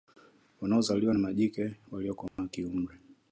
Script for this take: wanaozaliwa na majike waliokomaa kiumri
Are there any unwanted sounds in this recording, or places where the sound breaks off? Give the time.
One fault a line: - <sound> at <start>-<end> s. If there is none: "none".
- dropout at 2.3-2.4 s